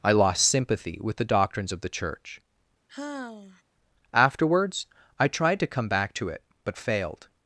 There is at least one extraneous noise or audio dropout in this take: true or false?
true